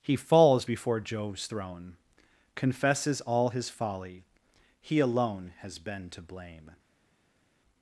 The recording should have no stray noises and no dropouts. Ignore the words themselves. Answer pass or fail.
pass